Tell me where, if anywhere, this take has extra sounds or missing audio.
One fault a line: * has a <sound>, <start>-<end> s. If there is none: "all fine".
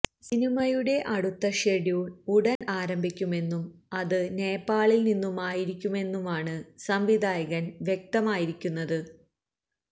* has a dropout, 2.6-2.6 s